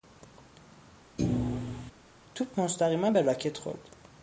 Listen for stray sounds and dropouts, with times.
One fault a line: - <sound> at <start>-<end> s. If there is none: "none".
- thud at 1.2-1.9 s